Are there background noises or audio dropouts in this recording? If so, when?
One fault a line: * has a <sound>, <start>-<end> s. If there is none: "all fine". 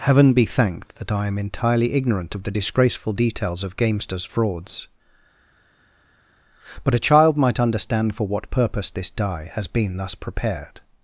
all fine